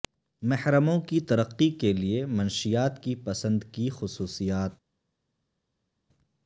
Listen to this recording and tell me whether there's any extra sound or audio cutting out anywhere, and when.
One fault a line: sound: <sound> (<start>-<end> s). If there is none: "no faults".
no faults